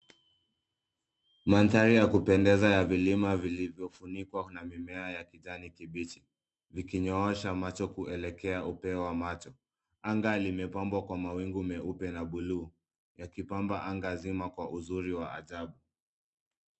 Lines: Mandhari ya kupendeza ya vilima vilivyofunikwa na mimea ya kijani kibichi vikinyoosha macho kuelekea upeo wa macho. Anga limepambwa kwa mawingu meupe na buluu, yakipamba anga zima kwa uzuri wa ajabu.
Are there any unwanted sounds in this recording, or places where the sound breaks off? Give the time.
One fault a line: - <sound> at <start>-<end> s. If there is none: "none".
none